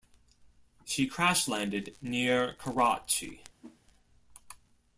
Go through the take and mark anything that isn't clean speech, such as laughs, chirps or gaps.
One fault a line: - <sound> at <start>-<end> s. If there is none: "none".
- whoosh at 3.6-3.8 s